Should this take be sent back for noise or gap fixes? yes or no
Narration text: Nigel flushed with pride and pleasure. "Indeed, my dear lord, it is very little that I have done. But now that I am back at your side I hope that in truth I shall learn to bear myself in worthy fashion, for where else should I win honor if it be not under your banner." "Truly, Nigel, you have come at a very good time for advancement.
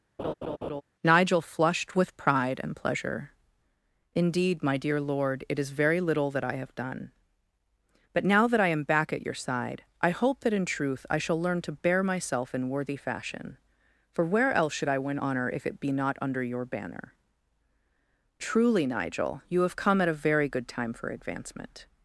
yes